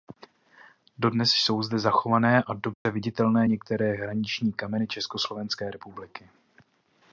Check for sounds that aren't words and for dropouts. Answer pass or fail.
fail